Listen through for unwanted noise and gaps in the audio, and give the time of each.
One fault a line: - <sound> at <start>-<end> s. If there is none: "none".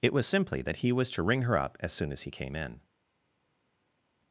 none